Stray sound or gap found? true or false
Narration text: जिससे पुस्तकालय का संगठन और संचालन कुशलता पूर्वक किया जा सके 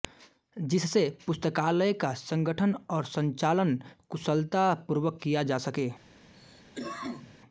true